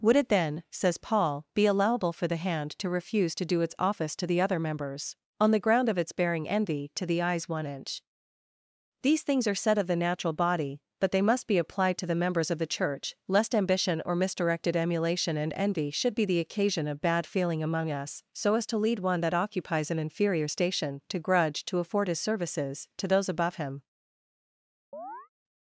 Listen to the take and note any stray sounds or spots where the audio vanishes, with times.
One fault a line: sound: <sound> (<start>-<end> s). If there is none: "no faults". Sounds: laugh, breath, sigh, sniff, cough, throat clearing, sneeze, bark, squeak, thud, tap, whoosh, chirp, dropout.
sound: chirp (24.9-25.3 s)